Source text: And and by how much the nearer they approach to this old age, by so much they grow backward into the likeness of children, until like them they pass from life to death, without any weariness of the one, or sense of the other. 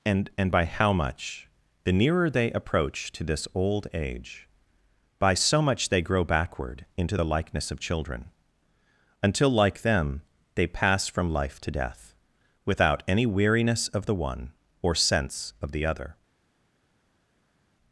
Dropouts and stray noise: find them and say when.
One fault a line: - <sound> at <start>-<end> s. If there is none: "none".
none